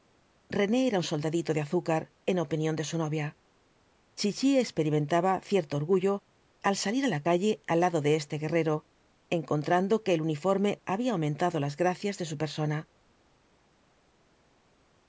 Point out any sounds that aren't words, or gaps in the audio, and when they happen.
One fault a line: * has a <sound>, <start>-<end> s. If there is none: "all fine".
all fine